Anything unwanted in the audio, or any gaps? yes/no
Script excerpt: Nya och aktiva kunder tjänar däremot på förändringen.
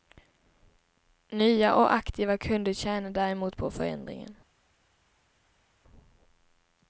no